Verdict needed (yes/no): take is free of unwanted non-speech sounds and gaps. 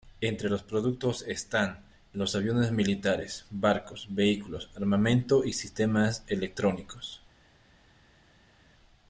yes